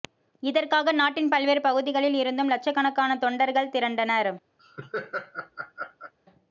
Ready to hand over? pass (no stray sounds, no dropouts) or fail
fail